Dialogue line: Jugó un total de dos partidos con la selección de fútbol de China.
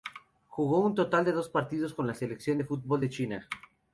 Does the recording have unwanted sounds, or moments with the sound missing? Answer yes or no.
no